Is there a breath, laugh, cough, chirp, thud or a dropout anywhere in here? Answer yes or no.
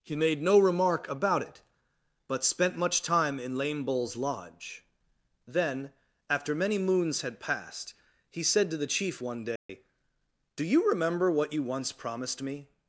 yes